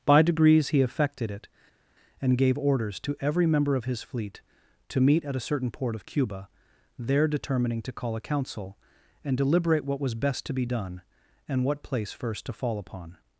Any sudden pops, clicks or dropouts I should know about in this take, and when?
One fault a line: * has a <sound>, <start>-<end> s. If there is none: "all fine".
all fine